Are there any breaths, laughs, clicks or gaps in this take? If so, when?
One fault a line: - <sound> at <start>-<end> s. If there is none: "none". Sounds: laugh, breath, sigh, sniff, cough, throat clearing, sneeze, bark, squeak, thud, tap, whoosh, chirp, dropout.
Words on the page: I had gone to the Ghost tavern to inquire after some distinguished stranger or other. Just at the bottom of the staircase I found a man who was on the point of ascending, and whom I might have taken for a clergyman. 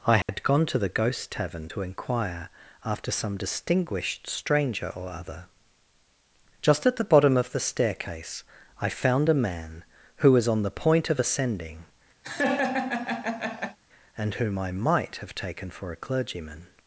- dropout at 0.2-0.3 s
- laugh at 12.2-13.8 s